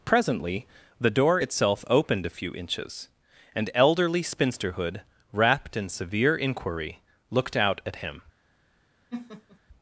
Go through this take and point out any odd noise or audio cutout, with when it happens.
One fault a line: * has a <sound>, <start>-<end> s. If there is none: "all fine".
* has a laugh, 9.1-9.6 s